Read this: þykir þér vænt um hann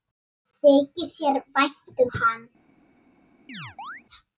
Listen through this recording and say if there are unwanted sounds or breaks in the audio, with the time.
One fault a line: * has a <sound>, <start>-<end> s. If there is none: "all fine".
* has a chirp, 3.5-4.0 s